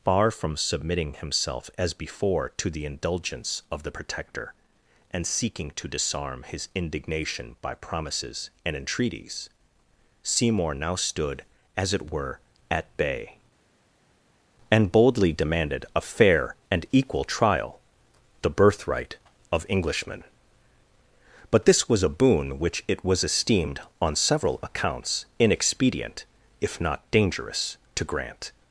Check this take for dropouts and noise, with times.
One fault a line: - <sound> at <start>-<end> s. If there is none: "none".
none